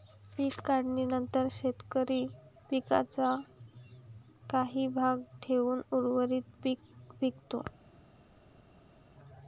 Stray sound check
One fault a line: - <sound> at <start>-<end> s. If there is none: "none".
none